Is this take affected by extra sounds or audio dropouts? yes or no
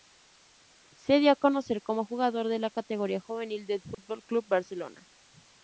yes